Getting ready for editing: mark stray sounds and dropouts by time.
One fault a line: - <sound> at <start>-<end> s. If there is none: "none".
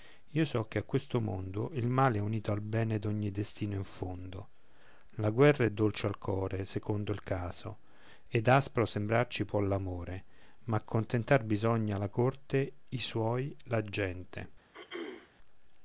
- throat clearing at 14.7-15.3 s